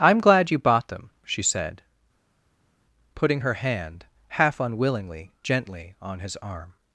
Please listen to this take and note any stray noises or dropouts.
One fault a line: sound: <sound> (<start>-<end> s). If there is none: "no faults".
no faults